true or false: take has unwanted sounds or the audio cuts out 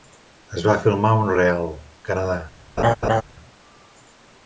true